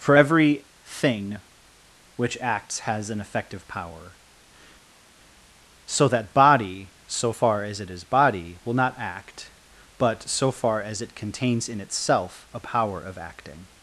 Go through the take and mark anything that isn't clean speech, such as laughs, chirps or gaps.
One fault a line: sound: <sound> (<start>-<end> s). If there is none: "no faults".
no faults